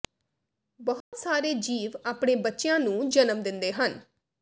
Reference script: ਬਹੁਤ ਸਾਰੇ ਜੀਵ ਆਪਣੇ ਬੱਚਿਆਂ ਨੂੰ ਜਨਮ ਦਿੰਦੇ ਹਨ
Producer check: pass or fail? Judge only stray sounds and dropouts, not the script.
fail